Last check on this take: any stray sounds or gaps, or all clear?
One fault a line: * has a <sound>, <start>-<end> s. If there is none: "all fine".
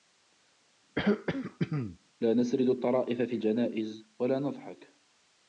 * has a throat clearing, 1.0-2.0 s